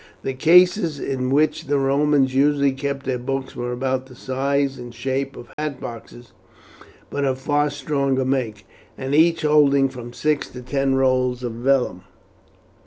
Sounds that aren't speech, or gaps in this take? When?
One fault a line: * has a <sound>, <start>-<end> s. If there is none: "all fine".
* has a dropout, 5.5-5.6 s